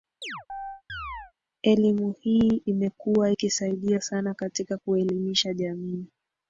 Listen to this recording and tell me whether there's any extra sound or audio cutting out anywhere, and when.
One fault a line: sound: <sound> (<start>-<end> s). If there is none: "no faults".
sound: chirp (0.2-1.3 s)